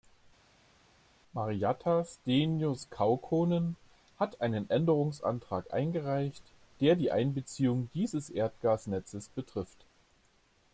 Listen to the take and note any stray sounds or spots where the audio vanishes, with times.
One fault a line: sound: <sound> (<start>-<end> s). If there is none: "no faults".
no faults